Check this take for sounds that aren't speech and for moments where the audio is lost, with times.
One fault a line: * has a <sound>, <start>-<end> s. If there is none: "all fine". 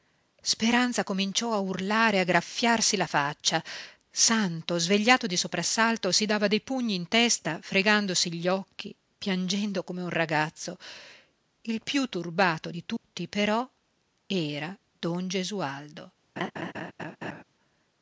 * has a dropout, 13.0-13.0 s
* has a laugh, 16.4-17.4 s